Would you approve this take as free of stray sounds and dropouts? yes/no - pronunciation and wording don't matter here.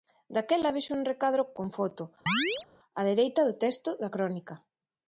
no